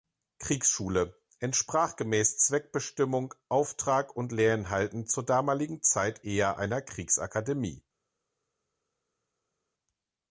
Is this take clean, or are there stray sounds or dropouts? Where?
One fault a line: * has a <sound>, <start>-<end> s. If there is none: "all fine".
all fine